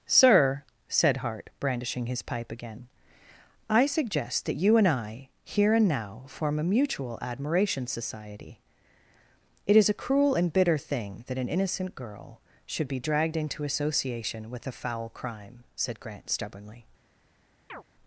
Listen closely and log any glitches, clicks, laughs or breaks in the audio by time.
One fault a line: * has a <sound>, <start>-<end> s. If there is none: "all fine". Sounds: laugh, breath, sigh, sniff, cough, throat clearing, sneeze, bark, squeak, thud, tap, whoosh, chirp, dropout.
* has a chirp, 17.7-17.8 s